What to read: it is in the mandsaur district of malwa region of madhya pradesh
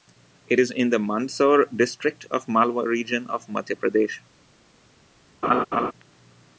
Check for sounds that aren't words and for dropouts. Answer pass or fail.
fail